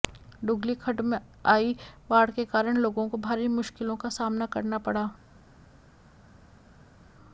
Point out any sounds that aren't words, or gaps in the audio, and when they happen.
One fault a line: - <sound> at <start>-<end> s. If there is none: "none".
none